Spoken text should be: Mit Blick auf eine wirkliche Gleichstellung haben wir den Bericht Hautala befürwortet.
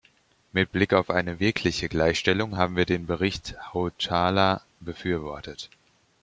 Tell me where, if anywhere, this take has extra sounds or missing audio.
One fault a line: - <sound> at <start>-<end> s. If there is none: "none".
none